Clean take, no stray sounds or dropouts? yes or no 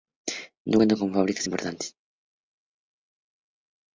yes